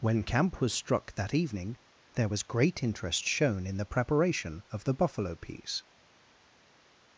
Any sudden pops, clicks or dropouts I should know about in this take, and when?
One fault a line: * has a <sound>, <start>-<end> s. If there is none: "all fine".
all fine